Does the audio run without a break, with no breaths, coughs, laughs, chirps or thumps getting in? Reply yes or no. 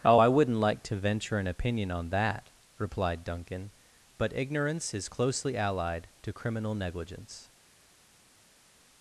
yes